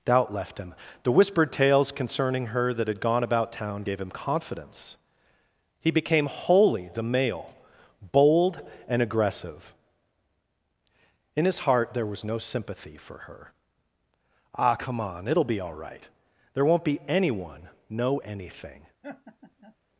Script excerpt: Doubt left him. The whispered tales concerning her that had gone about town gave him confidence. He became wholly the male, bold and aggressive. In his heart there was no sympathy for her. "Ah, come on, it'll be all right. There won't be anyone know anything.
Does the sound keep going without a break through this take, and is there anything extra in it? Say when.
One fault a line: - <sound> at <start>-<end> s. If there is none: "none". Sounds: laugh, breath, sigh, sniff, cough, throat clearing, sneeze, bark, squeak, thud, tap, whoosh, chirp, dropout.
- laugh at 19.0-19.8 s